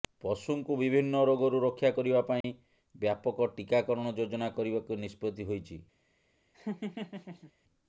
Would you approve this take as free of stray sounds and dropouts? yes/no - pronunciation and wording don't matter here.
no